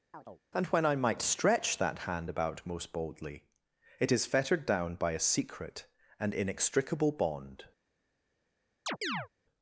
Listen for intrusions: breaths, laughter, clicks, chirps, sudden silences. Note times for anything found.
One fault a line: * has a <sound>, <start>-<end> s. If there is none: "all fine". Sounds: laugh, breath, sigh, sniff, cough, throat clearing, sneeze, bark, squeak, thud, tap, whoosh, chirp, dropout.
* has a chirp, 0.1-0.4 s
* has a chirp, 8.9-9.3 s